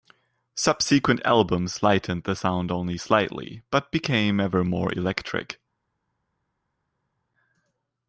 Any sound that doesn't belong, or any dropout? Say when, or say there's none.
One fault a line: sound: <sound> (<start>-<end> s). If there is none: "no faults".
no faults